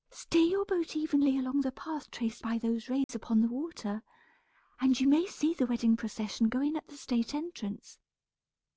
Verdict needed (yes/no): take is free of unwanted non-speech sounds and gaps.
no